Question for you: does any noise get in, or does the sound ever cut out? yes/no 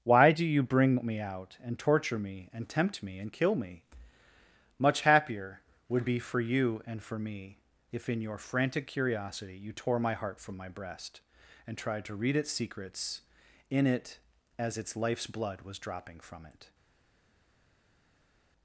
no